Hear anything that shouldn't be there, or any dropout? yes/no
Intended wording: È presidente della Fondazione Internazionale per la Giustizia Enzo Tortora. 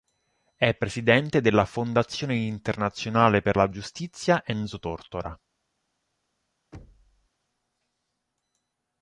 yes